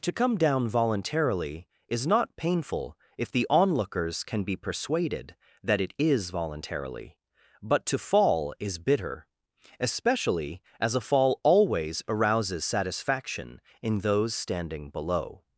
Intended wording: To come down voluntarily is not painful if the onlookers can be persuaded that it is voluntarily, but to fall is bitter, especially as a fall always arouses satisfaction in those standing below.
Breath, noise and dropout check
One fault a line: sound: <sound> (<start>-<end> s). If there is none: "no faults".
no faults